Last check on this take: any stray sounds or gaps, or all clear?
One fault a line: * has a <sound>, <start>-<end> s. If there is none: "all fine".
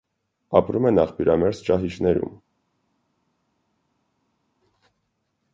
all fine